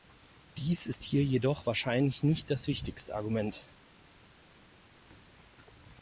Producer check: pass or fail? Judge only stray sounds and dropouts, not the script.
pass